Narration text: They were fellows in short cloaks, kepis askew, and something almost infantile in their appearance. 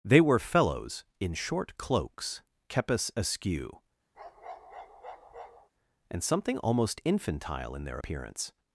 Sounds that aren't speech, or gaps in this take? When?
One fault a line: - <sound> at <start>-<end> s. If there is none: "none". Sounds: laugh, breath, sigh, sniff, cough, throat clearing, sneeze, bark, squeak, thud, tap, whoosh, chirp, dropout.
- bark at 4.1-5.7 s